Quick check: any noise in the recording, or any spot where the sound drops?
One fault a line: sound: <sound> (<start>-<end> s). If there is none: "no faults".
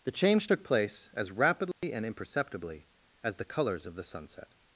sound: dropout (1.7-1.8 s)